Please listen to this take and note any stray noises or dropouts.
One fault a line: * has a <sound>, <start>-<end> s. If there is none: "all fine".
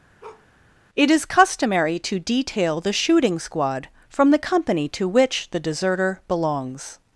* has a bark, 0.2-0.5 s